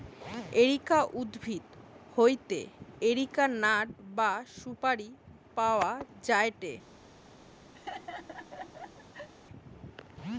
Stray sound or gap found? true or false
true